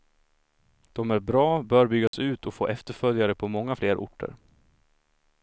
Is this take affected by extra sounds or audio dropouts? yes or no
yes